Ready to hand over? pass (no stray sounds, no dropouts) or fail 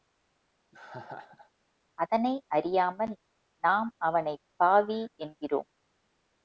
fail